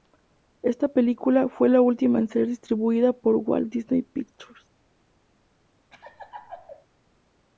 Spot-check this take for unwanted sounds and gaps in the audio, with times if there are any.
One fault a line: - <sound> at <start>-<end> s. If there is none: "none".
- laugh at 5.9-6.9 s